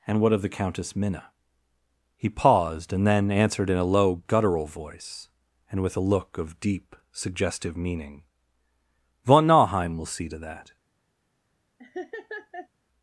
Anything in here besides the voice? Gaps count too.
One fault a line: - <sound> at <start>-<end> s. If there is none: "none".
- laugh at 11.8-12.7 s